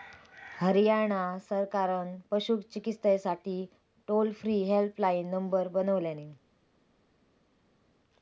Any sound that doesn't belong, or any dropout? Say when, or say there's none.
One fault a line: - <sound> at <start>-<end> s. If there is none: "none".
none